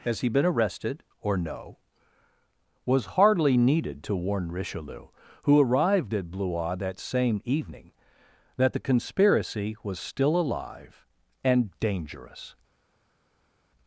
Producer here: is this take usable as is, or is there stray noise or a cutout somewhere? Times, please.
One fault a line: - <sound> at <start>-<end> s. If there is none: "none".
none